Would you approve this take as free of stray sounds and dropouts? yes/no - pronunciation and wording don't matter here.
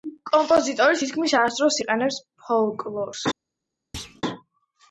no